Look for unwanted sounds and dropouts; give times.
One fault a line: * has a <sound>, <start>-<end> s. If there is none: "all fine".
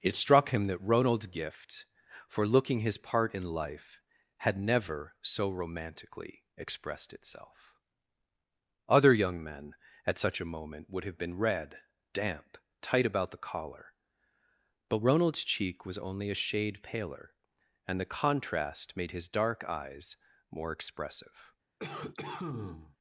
* has a cough, 21.8-23.0 s